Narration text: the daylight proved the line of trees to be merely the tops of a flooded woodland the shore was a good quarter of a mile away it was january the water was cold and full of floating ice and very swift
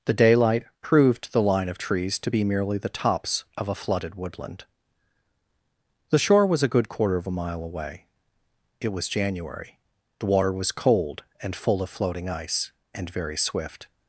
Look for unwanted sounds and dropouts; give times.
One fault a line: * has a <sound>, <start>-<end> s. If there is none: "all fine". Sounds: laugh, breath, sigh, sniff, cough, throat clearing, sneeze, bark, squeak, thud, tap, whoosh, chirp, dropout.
all fine